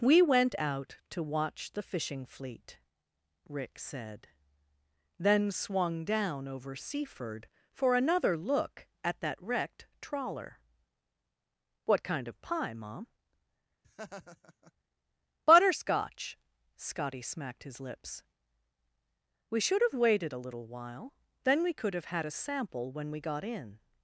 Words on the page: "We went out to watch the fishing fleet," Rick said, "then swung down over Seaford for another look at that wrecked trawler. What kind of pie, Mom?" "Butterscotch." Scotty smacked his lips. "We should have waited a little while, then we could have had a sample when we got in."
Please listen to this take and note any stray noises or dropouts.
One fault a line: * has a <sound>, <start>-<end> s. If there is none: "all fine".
* has a laugh, 13.8-14.7 s